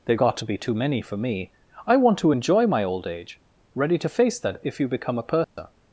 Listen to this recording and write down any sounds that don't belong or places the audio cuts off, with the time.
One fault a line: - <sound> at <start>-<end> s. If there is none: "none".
- dropout at 5.4-5.6 s